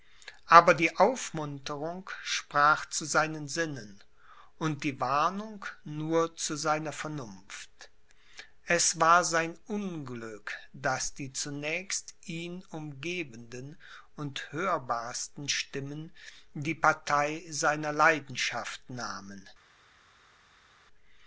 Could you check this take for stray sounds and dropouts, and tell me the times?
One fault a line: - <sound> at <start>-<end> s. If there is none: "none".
none